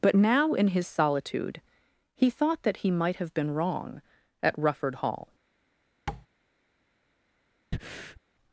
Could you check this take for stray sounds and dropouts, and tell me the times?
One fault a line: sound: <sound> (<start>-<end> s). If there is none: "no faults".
sound: tap (6.1-6.3 s)
sound: breath (7.7-8.2 s)